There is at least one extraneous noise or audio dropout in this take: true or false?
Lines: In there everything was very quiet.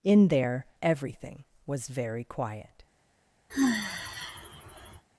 true